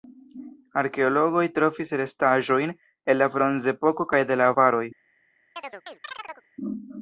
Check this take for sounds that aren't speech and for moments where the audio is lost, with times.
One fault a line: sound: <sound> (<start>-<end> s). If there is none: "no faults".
sound: chirp (5.6-6.5 s)